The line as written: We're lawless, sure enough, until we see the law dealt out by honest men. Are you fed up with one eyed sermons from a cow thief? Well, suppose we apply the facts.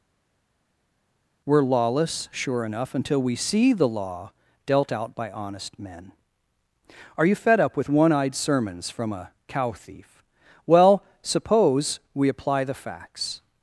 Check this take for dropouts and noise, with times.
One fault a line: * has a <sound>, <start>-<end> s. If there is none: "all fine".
all fine